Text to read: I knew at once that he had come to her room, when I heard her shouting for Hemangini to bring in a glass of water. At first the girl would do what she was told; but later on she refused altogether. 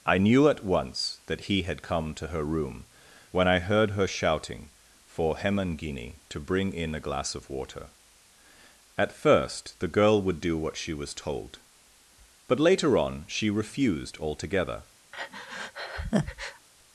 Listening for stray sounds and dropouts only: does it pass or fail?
fail